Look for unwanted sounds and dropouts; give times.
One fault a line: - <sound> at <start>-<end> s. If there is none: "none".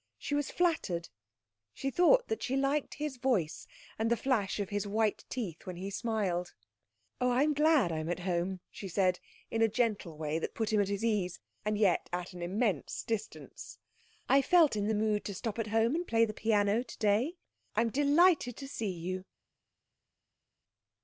none